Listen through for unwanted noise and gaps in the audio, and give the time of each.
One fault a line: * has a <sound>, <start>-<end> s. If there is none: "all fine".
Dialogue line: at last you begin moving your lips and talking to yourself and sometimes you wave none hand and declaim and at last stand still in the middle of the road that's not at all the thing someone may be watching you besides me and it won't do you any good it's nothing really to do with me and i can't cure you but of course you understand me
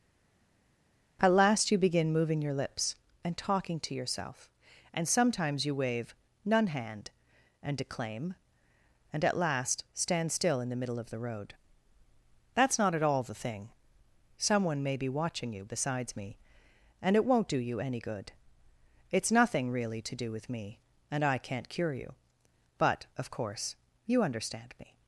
all fine